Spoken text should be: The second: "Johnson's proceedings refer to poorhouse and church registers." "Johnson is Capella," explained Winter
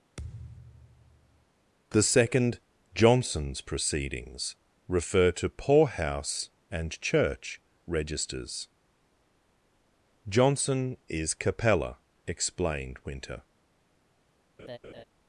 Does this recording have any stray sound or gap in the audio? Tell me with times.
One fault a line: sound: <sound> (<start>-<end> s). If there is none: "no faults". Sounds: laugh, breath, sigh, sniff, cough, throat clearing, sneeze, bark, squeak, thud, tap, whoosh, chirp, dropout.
sound: thud (0.2-1.5 s)
sound: laugh (14.6-15.0 s)